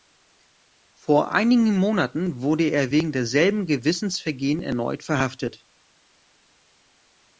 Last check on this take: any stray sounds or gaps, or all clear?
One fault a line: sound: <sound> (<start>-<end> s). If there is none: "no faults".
no faults